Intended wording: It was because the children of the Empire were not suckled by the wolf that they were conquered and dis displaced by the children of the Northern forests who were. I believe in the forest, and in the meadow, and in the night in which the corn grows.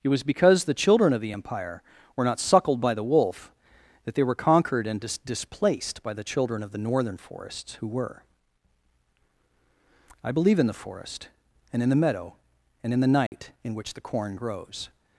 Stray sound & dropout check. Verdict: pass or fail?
fail